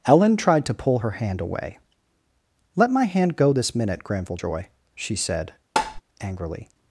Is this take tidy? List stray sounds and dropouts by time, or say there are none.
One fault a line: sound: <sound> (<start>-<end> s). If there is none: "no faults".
sound: tap (5.8-6.0 s)